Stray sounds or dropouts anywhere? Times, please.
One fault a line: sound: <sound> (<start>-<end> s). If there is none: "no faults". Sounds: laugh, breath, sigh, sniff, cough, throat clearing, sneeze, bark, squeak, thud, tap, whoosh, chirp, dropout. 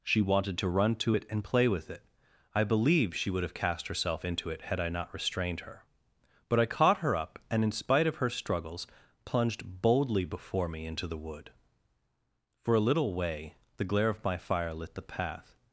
no faults